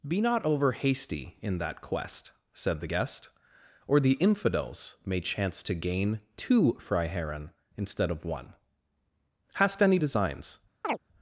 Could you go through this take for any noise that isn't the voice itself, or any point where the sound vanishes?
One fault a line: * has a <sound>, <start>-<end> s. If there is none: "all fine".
* has a chirp, 10.8-11.0 s